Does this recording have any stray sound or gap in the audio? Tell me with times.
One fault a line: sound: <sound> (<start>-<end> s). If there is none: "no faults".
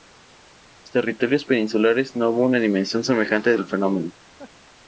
sound: laugh (4.4-4.5 s)